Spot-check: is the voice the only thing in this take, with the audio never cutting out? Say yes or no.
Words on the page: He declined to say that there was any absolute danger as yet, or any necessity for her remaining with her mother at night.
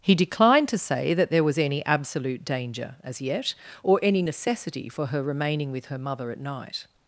yes